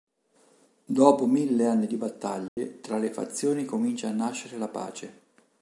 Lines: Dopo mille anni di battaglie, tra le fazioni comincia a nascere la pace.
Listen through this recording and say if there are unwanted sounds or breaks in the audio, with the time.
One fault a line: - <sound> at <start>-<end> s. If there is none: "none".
- dropout at 2.5-2.6 s